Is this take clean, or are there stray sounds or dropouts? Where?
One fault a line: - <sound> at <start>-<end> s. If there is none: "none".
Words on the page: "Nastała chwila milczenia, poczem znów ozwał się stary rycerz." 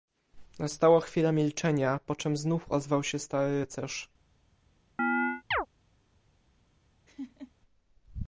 - chirp at 5.0-5.7 s
- laugh at 7.1-7.5 s